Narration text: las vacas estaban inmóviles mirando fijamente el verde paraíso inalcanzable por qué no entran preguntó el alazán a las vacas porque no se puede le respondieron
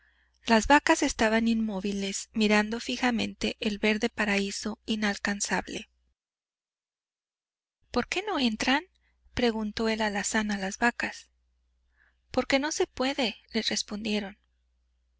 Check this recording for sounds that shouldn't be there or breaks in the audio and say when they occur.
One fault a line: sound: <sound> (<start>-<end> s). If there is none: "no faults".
no faults